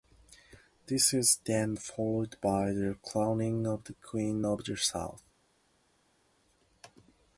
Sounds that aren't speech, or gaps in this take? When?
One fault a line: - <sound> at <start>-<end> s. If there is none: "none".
none